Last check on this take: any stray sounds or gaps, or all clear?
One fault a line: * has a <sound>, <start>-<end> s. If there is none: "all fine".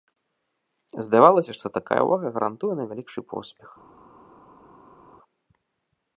all fine